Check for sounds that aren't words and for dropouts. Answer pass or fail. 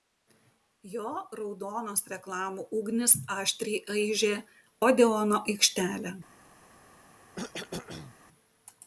fail